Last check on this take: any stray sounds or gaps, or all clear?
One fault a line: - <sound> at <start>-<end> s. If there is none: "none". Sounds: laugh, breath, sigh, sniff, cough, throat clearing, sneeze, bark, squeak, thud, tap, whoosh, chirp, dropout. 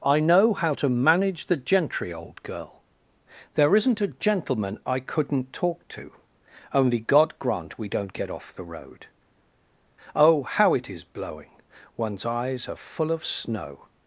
none